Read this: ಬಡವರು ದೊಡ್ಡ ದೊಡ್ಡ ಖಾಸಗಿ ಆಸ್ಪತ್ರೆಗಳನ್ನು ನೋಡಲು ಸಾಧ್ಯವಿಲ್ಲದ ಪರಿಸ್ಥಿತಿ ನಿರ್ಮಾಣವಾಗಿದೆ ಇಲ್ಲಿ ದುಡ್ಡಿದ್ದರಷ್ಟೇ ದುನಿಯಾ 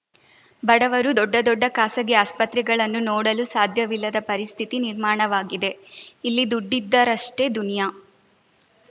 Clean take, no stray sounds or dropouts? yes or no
yes